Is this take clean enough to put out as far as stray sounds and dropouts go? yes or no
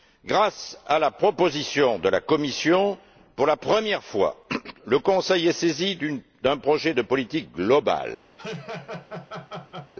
no